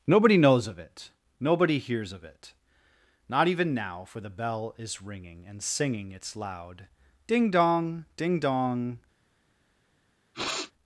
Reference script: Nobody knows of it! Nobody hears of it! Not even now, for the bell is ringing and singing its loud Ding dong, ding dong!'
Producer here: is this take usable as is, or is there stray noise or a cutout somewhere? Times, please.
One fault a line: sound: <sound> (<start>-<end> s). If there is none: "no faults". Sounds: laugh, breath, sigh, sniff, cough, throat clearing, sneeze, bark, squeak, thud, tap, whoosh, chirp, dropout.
sound: sniff (10.3-10.7 s)